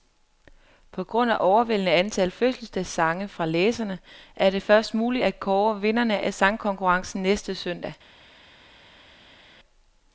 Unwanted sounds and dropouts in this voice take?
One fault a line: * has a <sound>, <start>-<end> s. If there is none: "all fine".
all fine